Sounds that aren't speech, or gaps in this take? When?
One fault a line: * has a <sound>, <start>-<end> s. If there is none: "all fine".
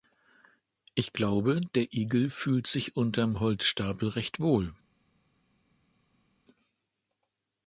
all fine